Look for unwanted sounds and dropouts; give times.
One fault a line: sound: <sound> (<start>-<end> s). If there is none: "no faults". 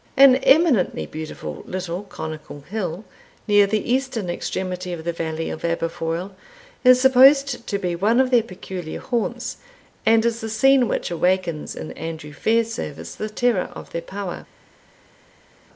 no faults